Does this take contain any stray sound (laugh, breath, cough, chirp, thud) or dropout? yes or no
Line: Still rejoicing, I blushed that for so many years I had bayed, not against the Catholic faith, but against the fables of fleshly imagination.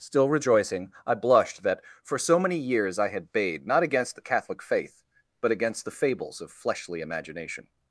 no